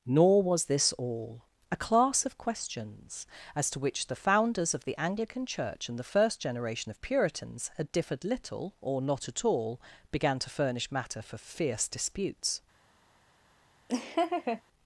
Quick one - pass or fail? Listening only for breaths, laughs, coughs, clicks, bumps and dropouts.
fail